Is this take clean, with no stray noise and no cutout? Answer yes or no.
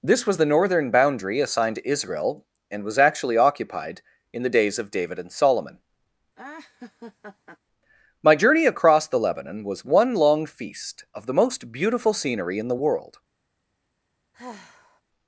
no